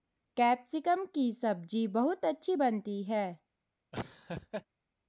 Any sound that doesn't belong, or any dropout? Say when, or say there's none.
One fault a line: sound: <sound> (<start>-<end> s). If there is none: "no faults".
sound: laugh (3.9-4.7 s)